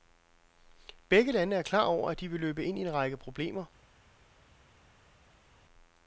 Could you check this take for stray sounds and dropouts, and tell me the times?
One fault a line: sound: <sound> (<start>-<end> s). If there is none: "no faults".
no faults